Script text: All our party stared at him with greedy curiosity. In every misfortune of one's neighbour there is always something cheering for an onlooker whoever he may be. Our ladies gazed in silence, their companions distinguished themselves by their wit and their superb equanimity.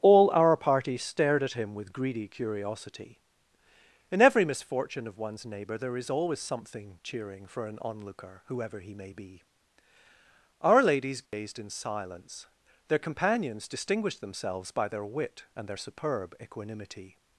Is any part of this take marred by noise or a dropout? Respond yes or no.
yes